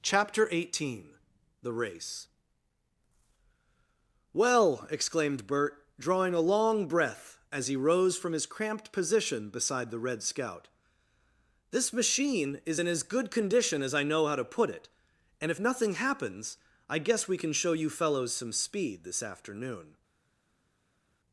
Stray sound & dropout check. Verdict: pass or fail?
pass